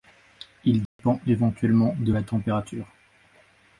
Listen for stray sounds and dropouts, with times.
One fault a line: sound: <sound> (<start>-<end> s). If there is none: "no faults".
sound: dropout (0.9-1.0 s)